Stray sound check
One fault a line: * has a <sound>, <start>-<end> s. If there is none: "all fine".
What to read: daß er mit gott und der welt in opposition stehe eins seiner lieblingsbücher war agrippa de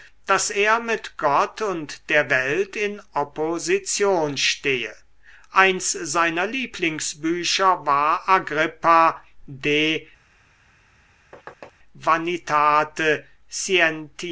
* has a thud, 11.3-11.7 s